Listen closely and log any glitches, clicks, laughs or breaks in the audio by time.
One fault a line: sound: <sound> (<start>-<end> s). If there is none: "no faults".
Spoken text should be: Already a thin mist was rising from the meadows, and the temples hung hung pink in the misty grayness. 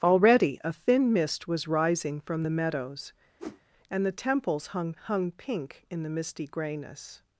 sound: whoosh (3.4-3.6 s)